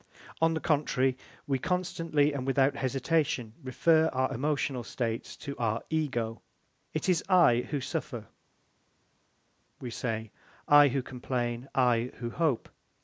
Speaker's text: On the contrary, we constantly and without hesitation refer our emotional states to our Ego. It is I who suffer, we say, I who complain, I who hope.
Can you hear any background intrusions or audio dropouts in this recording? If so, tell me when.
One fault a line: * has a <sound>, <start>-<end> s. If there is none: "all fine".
all fine